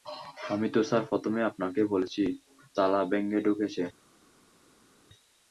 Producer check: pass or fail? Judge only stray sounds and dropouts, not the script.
pass